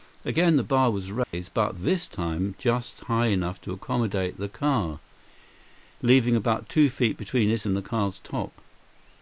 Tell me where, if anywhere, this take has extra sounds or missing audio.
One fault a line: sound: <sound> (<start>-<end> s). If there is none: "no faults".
sound: dropout (1.2-1.3 s)